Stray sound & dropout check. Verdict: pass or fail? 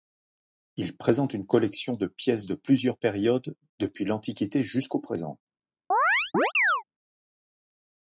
fail